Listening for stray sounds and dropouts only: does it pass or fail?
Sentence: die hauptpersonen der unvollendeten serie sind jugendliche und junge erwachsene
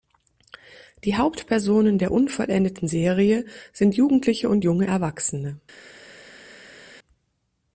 pass